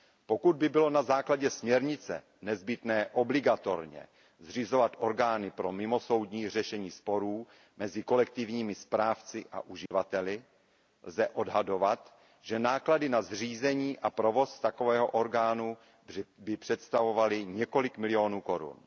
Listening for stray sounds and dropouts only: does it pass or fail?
fail